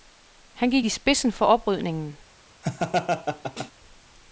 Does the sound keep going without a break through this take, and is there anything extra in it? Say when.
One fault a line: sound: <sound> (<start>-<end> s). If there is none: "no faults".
sound: laugh (2.6-3.7 s)